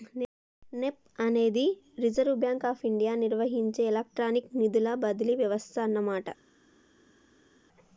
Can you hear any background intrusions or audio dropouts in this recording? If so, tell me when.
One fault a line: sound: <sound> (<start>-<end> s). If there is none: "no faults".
no faults